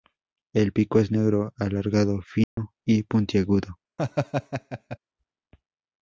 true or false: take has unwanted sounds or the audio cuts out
true